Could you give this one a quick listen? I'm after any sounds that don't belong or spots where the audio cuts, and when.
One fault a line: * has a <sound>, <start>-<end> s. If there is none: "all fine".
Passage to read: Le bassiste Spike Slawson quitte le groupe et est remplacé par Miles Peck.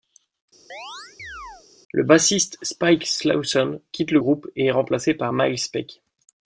* has a chirp, 0.7-1.7 s